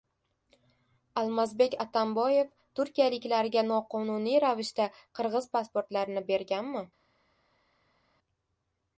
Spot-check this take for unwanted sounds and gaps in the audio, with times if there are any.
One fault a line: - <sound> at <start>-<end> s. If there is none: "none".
none